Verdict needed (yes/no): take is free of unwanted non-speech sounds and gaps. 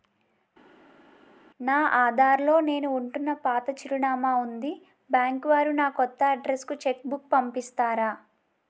yes